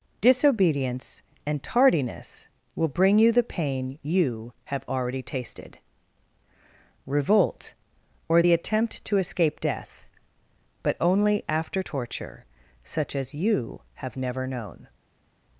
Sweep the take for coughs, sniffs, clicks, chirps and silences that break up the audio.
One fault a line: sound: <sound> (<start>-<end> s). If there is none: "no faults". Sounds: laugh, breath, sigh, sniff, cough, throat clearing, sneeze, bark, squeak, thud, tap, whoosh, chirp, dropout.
no faults